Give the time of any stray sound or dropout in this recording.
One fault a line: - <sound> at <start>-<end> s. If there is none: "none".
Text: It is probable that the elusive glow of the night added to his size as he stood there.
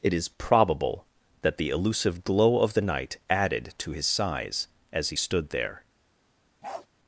- bark at 6.6-6.9 s